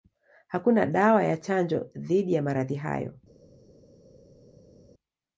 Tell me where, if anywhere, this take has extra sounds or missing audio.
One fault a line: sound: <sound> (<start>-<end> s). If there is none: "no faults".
no faults